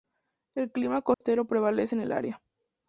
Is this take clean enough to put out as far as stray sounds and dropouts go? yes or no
no